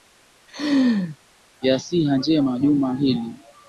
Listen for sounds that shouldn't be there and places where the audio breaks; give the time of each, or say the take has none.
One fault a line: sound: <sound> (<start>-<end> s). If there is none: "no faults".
sound: laugh (0.5-1.2 s)